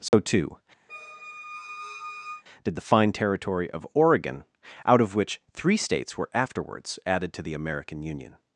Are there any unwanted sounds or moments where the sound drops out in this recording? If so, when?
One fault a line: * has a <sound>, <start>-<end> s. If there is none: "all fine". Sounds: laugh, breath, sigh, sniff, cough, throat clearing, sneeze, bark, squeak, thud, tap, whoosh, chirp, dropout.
* has a dropout, 0.1-0.1 s
* has a squeak, 0.9-2.4 s